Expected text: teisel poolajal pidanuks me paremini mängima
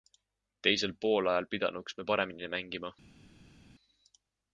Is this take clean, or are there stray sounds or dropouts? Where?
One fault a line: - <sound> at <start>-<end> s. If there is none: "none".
none